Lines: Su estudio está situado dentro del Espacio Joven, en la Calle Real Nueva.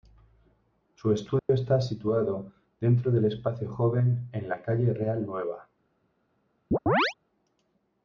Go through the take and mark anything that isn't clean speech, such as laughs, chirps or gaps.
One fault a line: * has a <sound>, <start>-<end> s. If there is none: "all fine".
* has a dropout, 1.4-1.5 s
* has a chirp, 6.7-7.1 s